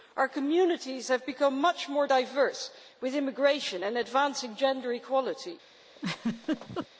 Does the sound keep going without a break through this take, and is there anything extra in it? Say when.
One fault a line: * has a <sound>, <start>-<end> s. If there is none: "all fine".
* has a laugh, 6.0-6.9 s